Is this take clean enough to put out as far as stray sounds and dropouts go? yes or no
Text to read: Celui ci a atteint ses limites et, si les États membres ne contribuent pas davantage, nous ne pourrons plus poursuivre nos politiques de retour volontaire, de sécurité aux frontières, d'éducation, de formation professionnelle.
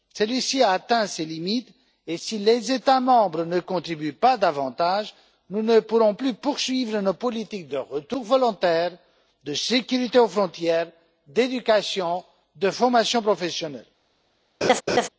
no